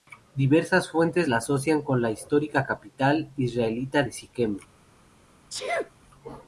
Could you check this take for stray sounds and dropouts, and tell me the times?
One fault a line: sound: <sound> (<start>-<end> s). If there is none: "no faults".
sound: sneeze (5.5-5.9 s)